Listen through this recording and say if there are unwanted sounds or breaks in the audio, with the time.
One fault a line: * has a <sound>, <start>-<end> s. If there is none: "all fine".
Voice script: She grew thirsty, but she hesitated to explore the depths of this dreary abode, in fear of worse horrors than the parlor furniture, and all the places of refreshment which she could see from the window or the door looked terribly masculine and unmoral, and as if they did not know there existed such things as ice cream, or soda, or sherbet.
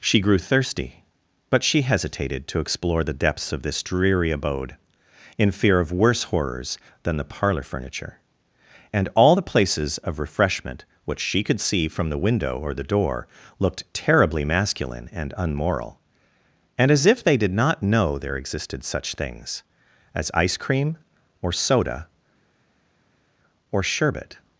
all fine